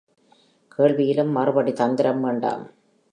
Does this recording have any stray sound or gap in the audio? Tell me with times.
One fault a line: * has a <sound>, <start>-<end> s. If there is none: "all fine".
all fine